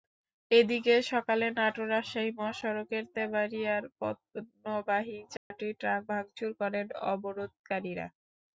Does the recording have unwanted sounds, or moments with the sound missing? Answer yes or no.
yes